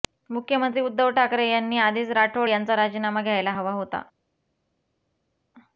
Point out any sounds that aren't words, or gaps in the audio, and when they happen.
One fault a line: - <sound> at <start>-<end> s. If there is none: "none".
none